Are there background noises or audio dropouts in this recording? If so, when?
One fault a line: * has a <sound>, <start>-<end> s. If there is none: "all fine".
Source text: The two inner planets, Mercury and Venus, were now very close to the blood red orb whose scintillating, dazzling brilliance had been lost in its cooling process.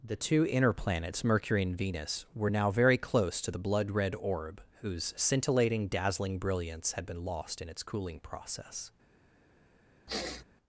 * has a sniff, 10.1-10.4 s